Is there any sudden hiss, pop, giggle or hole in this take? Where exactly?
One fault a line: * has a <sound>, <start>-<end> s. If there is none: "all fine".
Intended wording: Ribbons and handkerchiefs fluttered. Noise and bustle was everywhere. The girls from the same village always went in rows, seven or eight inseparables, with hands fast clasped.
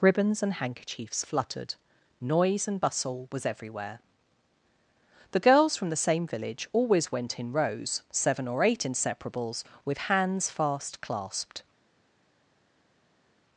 all fine